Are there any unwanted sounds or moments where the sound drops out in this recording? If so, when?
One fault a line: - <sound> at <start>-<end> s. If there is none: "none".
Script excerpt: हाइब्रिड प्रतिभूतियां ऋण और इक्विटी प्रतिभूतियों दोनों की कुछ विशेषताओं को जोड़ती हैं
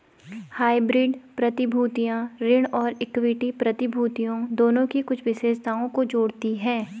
none